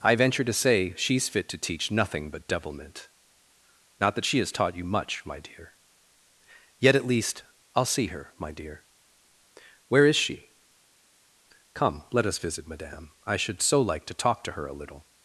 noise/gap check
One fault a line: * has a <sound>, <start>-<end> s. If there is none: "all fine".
all fine